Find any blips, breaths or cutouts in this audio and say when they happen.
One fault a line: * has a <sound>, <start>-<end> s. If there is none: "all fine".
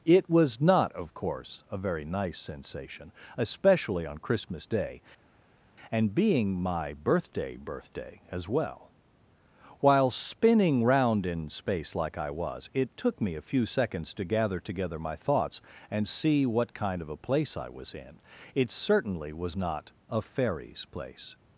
all fine